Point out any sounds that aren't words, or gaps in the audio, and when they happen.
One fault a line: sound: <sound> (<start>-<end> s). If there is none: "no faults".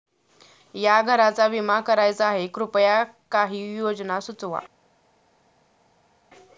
no faults